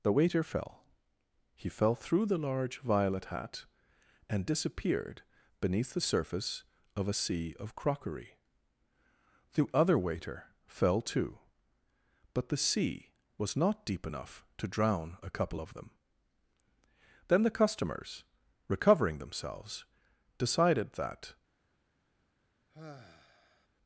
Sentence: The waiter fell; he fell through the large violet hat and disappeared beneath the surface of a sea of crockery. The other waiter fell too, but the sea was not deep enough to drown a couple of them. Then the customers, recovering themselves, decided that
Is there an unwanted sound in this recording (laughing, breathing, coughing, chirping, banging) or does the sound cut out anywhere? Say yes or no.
yes